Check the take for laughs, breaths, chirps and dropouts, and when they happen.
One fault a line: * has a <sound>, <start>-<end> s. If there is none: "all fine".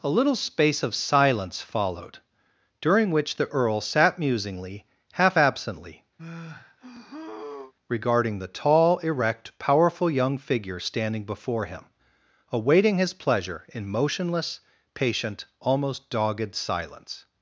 * has a sigh, 6.2-7.7 s